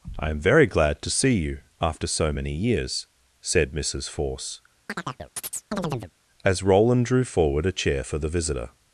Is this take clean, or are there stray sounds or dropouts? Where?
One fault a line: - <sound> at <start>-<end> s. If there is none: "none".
- chirp at 4.9-6.1 s